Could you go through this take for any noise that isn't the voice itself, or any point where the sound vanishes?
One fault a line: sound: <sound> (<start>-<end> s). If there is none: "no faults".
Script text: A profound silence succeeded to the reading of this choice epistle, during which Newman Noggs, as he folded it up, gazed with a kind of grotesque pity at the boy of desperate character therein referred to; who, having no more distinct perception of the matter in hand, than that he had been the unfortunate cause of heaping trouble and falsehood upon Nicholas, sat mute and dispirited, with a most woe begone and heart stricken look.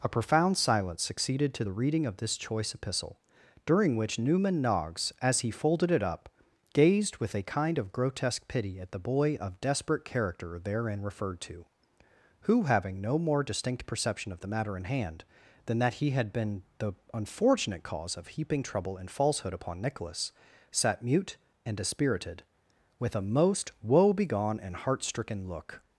no faults